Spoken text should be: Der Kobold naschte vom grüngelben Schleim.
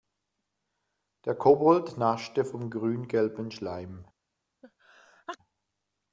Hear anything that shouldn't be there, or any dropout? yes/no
yes